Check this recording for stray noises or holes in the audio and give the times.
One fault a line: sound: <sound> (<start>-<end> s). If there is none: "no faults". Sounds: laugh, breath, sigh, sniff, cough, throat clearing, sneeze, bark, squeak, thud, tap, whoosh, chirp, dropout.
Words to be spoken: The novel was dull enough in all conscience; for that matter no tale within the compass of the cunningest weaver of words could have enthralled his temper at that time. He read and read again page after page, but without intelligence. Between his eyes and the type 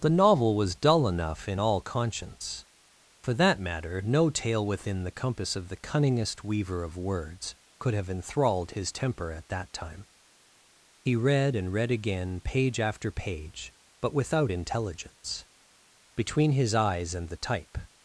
no faults